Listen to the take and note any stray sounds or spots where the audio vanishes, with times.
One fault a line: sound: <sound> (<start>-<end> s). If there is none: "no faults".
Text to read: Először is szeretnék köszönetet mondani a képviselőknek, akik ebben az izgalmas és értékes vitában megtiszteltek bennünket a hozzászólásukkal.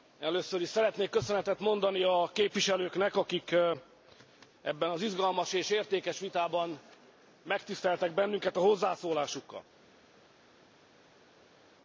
no faults